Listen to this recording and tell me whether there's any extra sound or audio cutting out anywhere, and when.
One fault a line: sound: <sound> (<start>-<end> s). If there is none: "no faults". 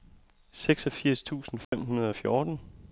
sound: dropout (1.6-1.7 s)